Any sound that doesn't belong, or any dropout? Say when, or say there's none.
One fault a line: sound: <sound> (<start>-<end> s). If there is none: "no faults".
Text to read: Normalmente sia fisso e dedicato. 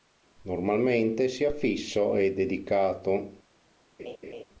sound: laugh (4.0-4.4 s)